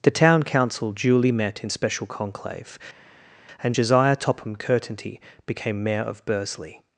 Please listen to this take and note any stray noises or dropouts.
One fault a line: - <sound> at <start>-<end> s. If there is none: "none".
none